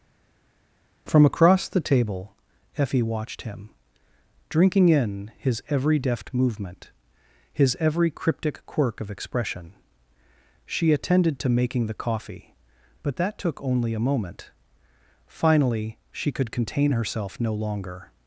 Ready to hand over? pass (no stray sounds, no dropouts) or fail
pass